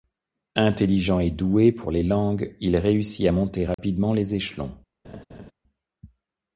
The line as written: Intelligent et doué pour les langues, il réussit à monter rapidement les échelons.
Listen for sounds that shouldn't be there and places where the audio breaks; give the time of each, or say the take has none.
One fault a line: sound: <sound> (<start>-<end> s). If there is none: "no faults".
sound: dropout (3.7-3.8 s)
sound: laugh (5.0-5.5 s)